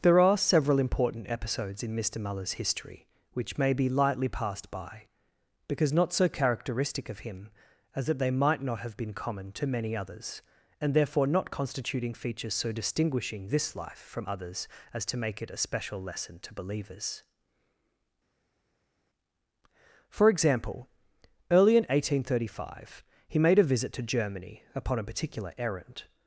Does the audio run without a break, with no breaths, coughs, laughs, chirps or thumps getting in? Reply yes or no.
yes